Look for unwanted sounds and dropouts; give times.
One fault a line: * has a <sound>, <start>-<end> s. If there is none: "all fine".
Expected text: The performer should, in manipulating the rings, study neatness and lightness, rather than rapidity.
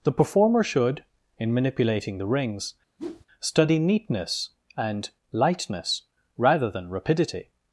* has a whoosh, 3.0-3.3 s